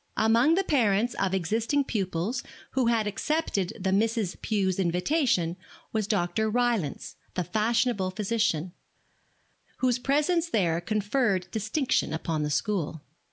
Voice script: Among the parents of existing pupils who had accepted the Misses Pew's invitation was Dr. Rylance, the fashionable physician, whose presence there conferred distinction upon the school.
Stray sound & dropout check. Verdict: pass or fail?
pass